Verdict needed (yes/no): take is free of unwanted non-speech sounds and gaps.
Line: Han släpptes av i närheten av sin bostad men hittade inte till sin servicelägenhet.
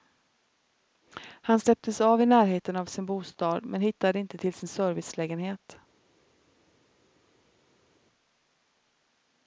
yes